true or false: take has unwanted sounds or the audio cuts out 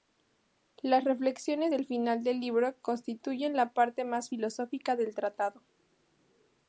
false